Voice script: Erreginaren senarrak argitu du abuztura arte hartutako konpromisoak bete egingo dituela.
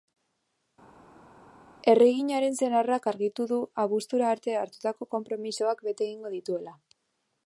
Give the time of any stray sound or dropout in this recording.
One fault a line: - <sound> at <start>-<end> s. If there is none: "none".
none